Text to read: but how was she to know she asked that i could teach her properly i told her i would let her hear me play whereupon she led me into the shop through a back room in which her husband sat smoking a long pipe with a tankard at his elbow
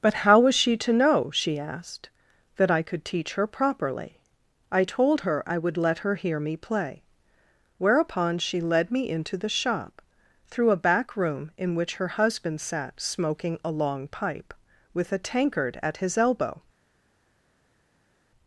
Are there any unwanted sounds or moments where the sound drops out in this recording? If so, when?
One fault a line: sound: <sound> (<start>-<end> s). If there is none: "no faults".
no faults